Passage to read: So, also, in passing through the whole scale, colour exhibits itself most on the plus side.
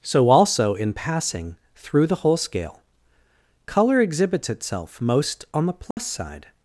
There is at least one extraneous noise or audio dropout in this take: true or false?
true